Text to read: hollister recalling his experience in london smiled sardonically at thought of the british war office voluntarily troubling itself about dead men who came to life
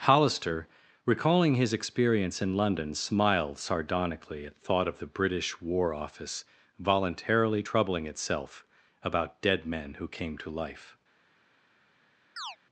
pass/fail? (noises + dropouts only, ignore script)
fail